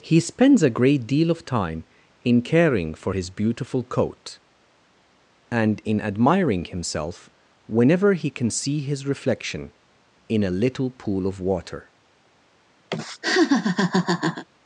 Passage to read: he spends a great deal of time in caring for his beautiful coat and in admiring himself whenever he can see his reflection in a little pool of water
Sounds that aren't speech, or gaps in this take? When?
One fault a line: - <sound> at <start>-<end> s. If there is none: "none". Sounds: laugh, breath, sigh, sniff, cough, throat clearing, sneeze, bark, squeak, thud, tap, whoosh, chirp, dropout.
- laugh at 12.9-14.4 s